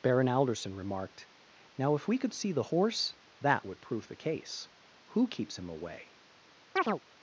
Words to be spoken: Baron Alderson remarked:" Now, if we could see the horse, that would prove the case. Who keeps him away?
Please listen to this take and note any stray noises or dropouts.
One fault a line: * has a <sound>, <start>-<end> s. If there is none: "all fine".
* has a chirp, 6.8-7.0 s